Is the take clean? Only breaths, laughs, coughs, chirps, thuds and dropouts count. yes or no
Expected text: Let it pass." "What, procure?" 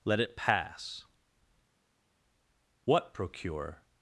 yes